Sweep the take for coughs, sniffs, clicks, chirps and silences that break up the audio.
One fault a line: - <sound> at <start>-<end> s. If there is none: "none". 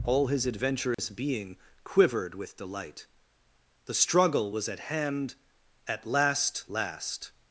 - dropout at 0.9-1.0 s